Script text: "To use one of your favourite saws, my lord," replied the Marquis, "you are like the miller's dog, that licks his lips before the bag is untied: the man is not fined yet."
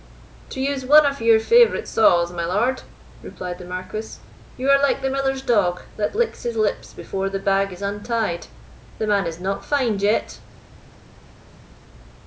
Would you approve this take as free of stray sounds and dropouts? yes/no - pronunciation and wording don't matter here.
yes